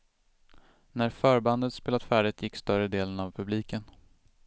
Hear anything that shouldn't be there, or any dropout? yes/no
no